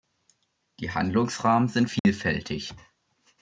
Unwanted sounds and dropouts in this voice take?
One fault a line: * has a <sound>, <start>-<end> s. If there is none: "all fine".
* has a dropout, 2.0-2.1 s